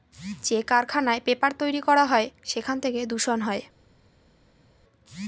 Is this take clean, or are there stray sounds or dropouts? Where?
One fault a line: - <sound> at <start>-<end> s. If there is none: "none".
none